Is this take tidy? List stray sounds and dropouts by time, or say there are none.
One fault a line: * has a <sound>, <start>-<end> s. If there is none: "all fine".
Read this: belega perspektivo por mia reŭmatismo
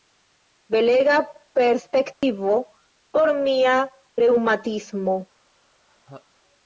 * has a dropout, 2.1-2.2 s
* has a laugh, 5.9-6.3 s